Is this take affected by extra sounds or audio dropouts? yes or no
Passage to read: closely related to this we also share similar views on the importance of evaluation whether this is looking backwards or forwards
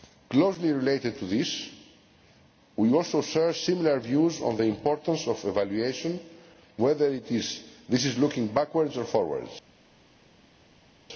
no